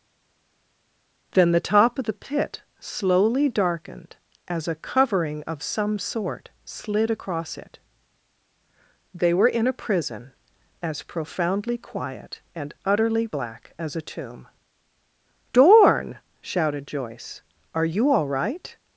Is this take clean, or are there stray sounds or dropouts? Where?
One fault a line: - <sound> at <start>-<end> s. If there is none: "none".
none